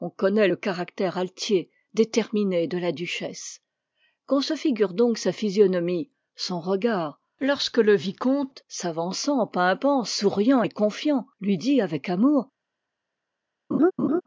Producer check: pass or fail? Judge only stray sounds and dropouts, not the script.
fail